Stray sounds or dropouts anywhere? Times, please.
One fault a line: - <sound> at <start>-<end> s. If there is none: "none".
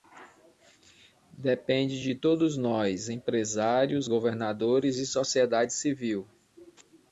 none